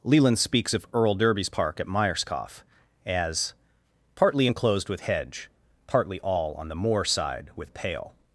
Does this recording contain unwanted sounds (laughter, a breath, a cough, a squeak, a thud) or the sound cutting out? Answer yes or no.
no